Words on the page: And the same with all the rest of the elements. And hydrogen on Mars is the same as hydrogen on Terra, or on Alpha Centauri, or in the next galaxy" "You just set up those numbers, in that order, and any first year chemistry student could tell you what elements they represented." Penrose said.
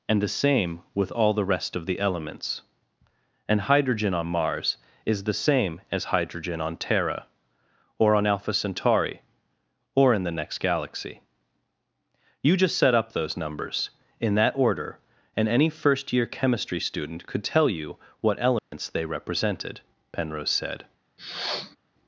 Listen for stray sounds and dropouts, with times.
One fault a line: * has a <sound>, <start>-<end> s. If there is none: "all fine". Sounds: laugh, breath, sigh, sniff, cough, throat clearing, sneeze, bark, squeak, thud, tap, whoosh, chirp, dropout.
* has a dropout, 18.6-18.7 s
* has a sniff, 21.2-21.8 s